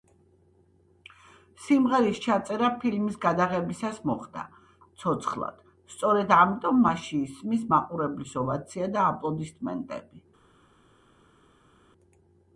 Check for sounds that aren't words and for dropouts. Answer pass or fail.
pass